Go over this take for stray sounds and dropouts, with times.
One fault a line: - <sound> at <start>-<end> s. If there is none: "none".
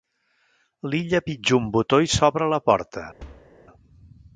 - thud at 3.2-3.5 s